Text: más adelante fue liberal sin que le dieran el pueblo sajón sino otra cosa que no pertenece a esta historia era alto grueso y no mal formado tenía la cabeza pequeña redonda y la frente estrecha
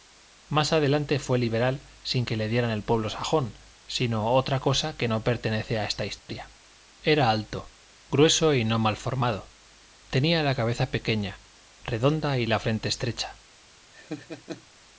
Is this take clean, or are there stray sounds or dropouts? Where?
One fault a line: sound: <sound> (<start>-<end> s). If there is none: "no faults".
sound: dropout (6.2-6.3 s)
sound: laugh (13.9-14.7 s)